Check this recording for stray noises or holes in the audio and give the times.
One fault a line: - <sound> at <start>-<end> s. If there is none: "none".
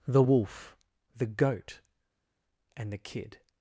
none